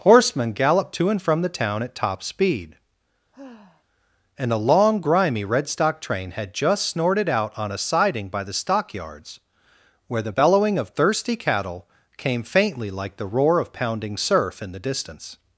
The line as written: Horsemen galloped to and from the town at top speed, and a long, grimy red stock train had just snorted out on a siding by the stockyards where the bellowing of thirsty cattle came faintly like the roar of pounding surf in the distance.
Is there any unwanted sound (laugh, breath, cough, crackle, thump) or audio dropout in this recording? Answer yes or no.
yes